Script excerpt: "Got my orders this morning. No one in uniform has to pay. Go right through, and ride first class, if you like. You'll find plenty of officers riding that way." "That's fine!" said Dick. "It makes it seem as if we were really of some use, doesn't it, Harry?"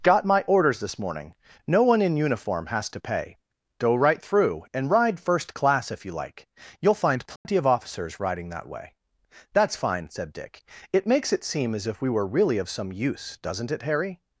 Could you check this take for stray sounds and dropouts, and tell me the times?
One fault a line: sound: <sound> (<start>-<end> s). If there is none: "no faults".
sound: dropout (7.4-7.5 s)